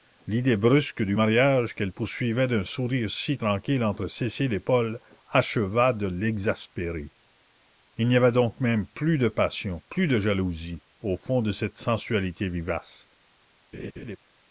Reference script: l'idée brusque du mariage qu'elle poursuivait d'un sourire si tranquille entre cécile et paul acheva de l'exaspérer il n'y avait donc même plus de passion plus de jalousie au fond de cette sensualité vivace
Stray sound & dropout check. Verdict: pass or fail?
fail